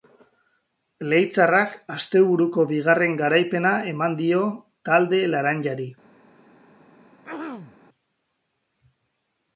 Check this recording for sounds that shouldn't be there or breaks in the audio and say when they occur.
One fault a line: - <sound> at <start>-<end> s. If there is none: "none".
- throat clearing at 7.2-7.8 s